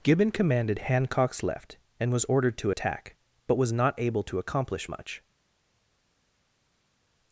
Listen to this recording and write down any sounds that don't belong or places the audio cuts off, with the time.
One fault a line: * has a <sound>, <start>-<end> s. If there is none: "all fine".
all fine